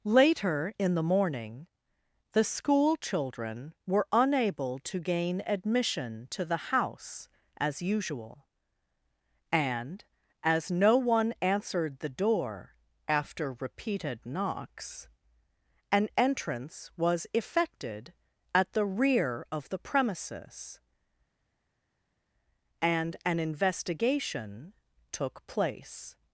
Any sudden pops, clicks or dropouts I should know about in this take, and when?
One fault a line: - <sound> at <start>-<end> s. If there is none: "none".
none